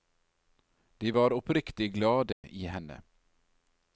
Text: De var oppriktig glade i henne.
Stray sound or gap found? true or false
true